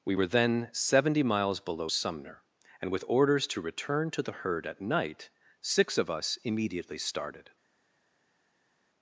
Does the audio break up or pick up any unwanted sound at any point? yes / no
no